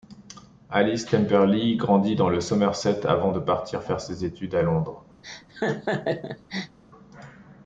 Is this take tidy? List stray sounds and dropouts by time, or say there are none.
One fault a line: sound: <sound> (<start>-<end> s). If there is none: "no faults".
sound: laugh (5.2-6.8 s)